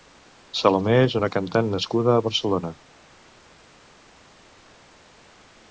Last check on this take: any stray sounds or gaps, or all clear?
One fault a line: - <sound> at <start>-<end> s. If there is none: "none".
none